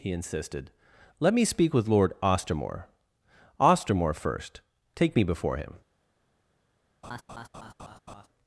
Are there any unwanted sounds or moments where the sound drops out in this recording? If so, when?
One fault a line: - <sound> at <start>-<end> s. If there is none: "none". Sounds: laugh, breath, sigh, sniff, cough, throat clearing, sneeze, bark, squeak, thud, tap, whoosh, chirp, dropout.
- laugh at 7.0-8.3 s